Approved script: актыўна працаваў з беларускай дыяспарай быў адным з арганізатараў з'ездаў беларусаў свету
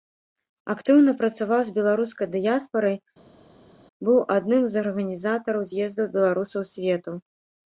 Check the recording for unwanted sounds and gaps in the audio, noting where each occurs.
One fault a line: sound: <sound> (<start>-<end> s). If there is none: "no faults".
no faults